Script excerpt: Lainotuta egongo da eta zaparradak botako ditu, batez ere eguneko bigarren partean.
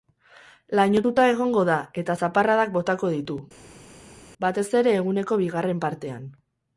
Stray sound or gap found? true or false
false